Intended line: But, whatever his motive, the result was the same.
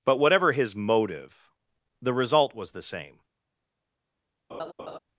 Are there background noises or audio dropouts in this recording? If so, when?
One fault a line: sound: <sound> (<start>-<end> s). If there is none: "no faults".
sound: laugh (4.5-5.0 s)